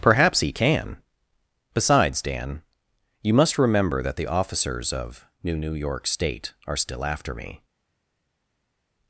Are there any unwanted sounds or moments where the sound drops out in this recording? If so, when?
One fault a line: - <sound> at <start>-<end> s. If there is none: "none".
none